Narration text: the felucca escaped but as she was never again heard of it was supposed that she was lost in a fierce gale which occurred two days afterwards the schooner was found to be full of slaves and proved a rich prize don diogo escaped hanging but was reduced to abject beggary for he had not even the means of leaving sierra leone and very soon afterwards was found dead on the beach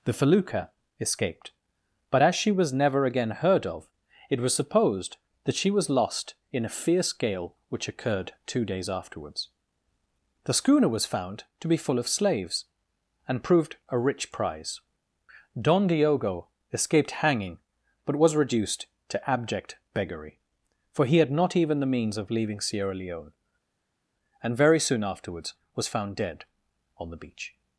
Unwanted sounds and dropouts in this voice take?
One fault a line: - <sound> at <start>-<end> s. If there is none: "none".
none